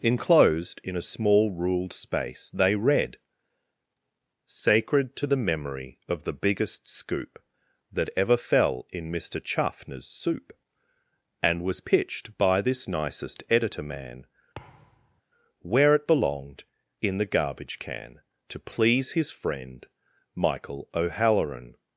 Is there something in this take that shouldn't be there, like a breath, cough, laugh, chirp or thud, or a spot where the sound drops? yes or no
yes